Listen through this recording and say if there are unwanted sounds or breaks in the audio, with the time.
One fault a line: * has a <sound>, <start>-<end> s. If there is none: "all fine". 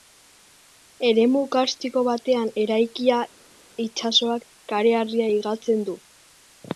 all fine